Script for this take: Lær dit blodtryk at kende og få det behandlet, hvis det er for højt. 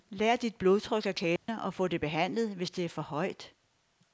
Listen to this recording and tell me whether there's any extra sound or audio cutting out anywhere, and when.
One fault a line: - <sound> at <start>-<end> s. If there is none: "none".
- dropout at 1.4-1.5 s